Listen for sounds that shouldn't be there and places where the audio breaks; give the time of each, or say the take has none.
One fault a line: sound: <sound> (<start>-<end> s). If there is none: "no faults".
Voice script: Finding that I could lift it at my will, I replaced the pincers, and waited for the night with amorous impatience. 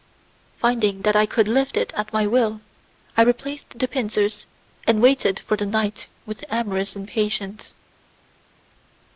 no faults